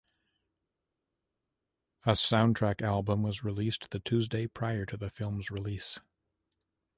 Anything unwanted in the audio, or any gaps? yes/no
no